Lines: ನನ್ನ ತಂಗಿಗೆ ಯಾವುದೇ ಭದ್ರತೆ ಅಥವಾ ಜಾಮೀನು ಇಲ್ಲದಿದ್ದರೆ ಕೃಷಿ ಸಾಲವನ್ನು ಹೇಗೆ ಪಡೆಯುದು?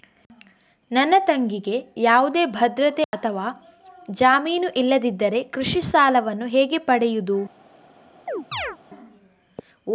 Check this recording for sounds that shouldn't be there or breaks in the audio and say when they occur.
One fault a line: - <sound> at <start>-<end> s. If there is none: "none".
- dropout at 3.0-3.1 s
- chirp at 8.3-8.8 s